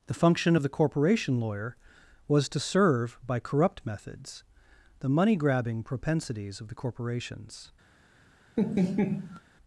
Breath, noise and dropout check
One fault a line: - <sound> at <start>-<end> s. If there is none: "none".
- laugh at 8.6-9.4 s